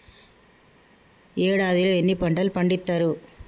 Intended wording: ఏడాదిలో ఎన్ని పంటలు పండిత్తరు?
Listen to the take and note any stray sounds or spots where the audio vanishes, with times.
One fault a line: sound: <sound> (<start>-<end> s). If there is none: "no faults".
no faults